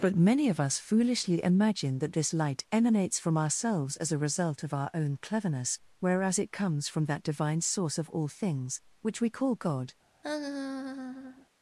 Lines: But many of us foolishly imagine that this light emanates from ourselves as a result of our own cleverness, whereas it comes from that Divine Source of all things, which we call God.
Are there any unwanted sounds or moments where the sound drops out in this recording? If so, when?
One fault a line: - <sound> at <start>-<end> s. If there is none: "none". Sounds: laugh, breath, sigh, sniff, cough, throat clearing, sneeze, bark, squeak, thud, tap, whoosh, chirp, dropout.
- laugh at 10.2-11.5 s